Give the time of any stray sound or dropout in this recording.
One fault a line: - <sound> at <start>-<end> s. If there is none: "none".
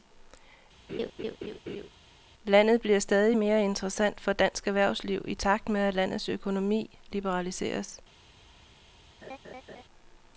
- laugh at 0.9-1.9 s
- laugh at 9.2-9.8 s